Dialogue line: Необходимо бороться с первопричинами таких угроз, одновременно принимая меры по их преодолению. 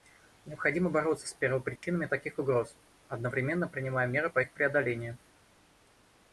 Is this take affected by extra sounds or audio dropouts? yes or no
yes